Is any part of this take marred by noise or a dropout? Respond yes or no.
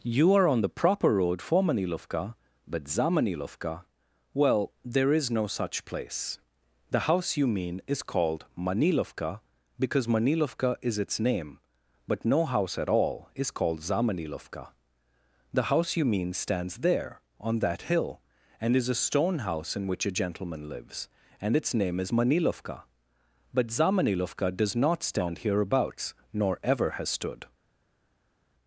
no